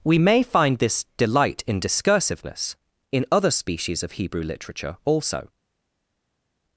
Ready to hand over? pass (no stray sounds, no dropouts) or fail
pass